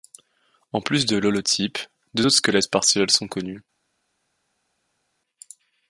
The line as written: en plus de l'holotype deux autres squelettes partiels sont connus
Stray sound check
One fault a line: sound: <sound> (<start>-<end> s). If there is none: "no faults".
no faults